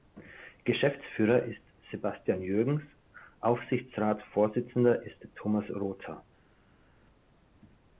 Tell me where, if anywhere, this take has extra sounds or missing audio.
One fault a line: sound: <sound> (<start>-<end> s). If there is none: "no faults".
no faults